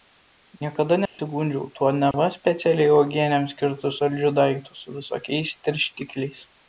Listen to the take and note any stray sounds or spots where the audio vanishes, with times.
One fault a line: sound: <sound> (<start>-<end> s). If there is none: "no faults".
sound: dropout (1.1-1.2 s)
sound: dropout (2.1-2.1 s)